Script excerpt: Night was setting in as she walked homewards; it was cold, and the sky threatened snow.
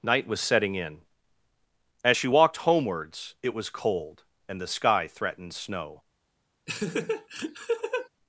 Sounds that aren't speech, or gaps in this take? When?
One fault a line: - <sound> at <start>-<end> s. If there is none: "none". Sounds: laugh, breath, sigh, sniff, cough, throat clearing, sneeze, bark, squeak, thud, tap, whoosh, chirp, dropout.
- laugh at 6.7-8.1 s